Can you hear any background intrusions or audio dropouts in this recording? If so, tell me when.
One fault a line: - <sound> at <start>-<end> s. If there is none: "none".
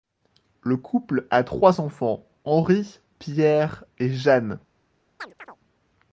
- chirp at 5.2-5.6 s